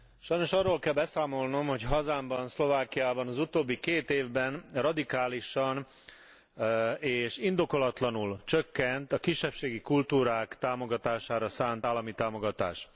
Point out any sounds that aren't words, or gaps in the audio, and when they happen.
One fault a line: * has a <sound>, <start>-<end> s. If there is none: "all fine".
all fine